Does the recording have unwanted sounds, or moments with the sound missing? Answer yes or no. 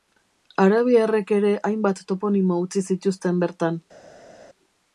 no